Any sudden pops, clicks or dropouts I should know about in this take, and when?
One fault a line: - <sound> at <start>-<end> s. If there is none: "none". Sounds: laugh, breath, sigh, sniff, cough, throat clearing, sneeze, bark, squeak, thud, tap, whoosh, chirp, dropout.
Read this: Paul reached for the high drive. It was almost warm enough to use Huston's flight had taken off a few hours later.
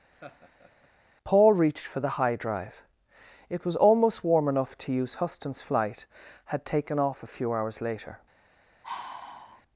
- laugh at 0.1-0.9 s
- sigh at 8.8-9.6 s